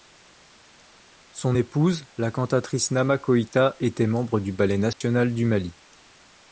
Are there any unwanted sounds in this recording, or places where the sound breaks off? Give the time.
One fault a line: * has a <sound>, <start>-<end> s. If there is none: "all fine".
* has a dropout, 4.9-5.0 s